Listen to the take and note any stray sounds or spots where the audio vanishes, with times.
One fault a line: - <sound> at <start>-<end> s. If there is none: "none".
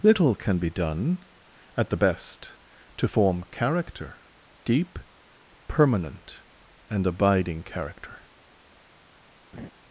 - laugh at 9.5-9.7 s